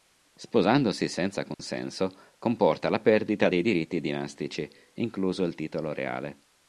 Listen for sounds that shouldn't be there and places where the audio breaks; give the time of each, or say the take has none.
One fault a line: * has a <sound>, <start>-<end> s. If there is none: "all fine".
* has a dropout, 1.5-1.6 s